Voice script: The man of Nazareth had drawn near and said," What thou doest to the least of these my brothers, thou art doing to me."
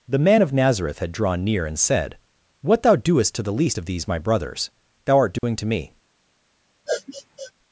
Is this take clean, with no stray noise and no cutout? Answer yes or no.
no